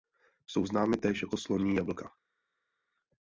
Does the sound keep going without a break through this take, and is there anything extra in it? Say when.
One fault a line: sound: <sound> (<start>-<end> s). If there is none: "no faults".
no faults